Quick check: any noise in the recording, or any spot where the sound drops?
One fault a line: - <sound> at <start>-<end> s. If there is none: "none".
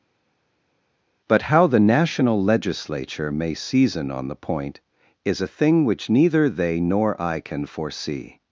none